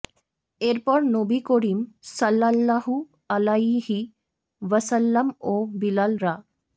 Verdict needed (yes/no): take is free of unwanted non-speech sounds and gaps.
yes